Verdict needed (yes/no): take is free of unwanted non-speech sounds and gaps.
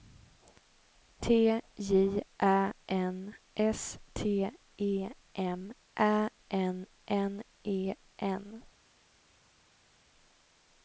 yes